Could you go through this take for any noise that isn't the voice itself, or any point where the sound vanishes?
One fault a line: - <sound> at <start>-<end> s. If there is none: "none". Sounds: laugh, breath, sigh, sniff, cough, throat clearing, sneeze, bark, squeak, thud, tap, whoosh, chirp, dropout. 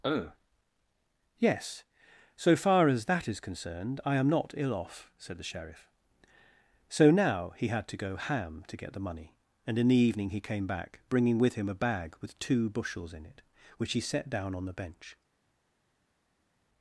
none